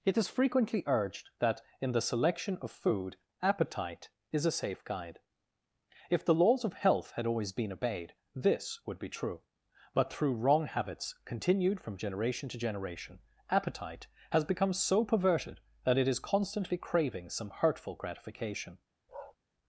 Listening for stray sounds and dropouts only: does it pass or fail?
fail